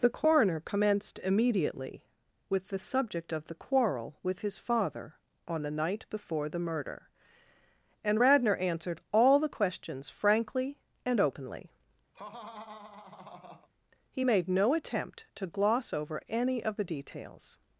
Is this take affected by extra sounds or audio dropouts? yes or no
yes